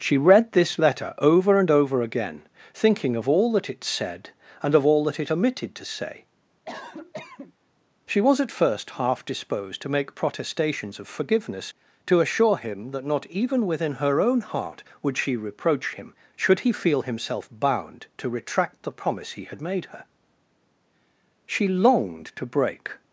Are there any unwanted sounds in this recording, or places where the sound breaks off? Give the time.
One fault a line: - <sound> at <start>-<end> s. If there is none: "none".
- cough at 6.7-7.5 s